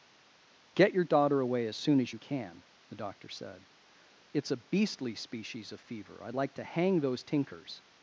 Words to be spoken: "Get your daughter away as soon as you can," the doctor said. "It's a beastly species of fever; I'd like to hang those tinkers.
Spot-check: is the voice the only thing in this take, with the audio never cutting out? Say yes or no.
yes